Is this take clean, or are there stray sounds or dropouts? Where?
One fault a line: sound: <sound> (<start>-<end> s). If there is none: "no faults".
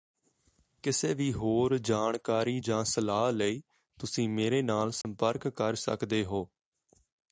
sound: dropout (5.0-5.0 s)